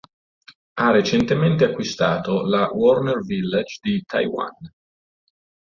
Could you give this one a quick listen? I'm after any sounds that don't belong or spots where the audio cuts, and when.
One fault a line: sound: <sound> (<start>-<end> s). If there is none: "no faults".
no faults